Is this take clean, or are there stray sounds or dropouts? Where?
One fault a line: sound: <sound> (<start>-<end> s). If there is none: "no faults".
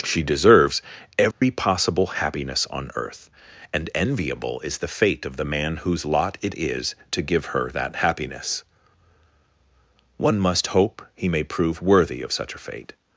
sound: dropout (1.3-1.4 s)